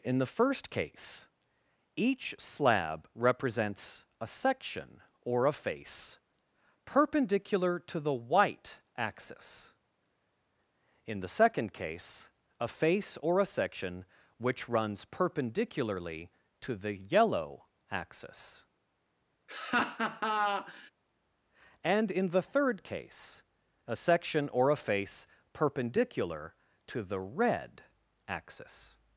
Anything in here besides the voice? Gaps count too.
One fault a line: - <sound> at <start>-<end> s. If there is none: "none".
- laugh at 19.5-20.9 s